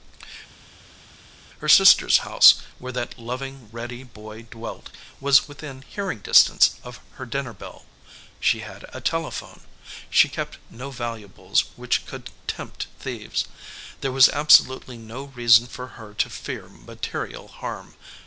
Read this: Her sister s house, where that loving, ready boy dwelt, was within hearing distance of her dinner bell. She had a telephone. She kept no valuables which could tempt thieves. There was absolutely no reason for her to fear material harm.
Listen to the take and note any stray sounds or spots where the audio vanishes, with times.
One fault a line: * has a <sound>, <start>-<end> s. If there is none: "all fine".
all fine